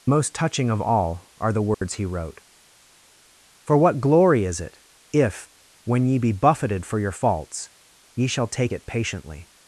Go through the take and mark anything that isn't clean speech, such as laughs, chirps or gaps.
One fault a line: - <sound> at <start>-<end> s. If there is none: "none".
- dropout at 1.7-1.8 s